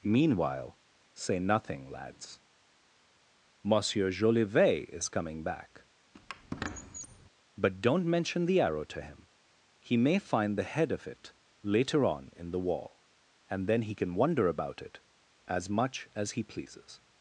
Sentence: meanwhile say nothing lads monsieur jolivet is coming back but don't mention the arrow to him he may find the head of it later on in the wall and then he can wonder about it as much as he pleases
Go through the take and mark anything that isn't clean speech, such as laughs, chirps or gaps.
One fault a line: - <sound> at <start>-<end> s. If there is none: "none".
- squeak at 6.1-7.3 s